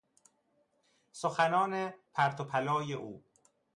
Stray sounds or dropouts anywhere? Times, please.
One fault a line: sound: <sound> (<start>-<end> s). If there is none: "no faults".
no faults